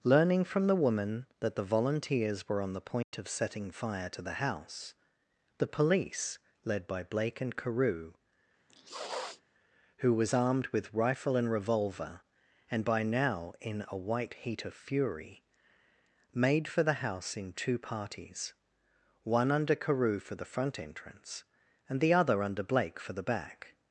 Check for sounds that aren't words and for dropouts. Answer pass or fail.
fail